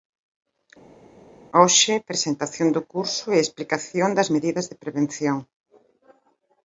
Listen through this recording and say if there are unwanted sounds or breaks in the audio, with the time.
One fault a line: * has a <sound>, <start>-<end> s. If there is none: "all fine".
all fine